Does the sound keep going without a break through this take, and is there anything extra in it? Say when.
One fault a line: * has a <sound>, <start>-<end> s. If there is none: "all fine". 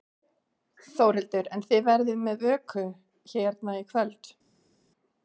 all fine